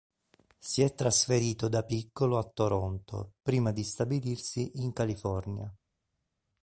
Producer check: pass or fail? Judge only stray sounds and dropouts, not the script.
pass